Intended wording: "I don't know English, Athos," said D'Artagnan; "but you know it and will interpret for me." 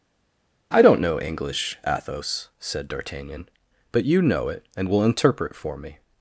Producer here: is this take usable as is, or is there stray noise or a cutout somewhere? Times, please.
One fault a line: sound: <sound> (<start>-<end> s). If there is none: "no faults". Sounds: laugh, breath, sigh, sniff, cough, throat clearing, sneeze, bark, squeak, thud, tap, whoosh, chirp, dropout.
no faults